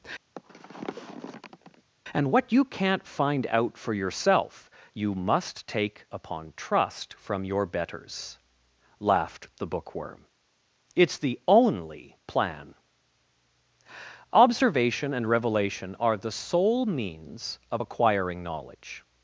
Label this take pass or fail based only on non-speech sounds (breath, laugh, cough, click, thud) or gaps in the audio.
fail